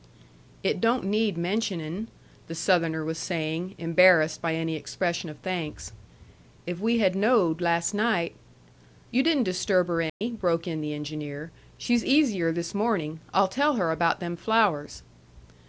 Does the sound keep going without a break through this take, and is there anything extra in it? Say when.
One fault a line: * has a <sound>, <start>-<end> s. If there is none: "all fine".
* has a dropout, 10.1-10.2 s